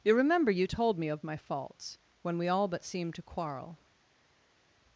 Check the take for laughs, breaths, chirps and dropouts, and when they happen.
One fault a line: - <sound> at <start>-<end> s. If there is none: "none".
none